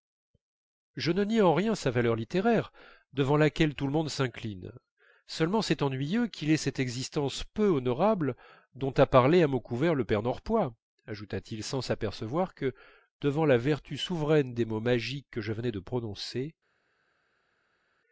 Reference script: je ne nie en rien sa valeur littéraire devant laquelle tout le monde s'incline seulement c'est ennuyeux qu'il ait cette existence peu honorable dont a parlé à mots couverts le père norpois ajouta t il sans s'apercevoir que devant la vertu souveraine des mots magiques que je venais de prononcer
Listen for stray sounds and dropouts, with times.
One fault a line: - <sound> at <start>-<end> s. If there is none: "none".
none